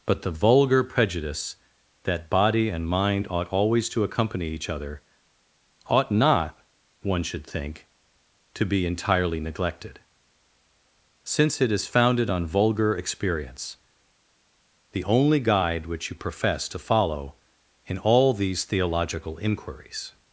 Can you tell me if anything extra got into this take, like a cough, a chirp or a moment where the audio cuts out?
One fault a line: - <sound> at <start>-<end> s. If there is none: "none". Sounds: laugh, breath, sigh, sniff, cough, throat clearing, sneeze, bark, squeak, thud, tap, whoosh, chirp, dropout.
none